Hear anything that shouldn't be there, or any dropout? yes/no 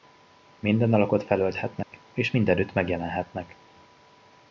yes